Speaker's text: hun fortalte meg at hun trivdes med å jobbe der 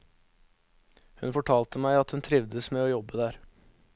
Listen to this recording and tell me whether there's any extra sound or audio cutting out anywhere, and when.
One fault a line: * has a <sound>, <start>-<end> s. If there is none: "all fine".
all fine